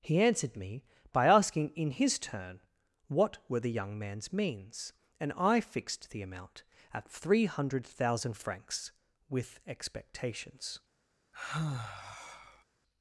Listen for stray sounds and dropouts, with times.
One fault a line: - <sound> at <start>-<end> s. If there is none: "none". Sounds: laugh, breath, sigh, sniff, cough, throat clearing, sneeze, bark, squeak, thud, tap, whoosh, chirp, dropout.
- sigh at 11.3-12.6 s